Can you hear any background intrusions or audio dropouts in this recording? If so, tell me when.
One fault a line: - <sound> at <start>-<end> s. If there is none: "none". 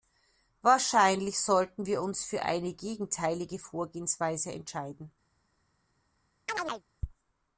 - chirp at 6.5-6.8 s